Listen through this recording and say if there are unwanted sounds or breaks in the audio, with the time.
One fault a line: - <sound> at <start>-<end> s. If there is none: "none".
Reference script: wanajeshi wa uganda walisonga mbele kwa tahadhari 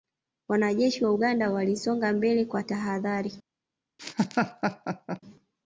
- laugh at 4.0-5.2 s